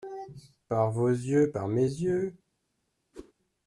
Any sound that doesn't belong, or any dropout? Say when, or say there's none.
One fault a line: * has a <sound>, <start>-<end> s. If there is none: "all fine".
* has a whoosh, 3.1-3.3 s